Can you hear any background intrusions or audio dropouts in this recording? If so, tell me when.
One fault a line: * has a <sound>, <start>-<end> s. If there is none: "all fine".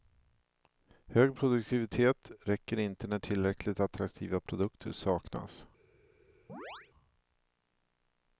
* has a chirp, 6.5-6.9 s